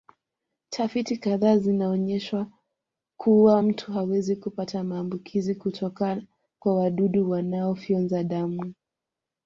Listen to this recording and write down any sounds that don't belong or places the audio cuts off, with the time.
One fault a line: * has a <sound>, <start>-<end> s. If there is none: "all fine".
all fine